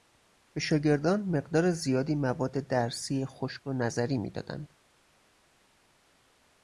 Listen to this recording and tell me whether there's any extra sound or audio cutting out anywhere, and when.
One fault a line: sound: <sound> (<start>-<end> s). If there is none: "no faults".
no faults